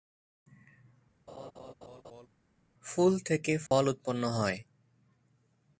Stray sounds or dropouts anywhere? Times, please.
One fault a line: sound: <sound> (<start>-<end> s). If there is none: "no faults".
sound: laugh (1.3-2.3 s)
sound: dropout (3.7-3.7 s)